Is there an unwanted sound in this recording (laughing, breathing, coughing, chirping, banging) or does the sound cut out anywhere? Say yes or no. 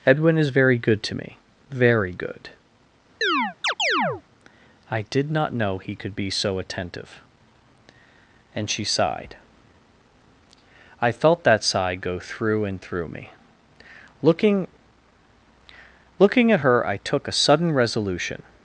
yes